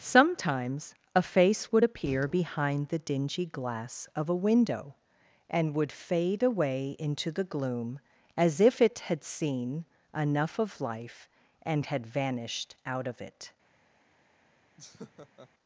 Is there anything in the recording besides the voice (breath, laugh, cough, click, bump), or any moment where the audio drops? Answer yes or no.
yes